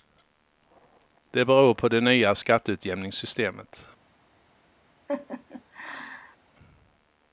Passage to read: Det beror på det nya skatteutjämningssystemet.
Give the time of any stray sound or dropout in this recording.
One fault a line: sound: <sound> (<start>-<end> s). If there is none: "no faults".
sound: laugh (5.1-6.4 s)